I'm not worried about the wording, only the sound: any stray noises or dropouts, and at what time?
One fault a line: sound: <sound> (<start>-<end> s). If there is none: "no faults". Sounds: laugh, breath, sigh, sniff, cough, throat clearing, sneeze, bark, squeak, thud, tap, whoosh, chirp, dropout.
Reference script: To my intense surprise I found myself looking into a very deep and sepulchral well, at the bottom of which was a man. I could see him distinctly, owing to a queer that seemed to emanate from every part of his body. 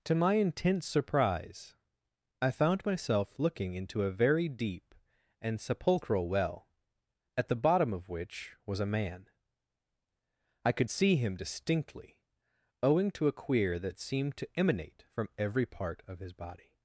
no faults